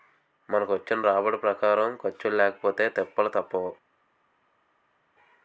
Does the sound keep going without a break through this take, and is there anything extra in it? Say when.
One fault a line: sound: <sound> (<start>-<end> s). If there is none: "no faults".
no faults